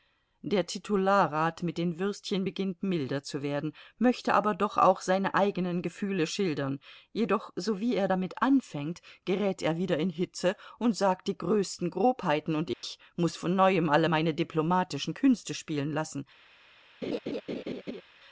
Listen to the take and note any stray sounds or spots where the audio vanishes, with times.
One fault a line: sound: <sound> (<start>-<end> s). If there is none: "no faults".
sound: dropout (12.7-12.8 s)
sound: laugh (17.0-18.0 s)